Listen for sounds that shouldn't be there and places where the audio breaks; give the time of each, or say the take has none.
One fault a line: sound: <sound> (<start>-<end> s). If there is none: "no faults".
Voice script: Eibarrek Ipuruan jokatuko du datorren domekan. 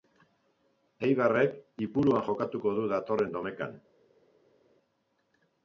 no faults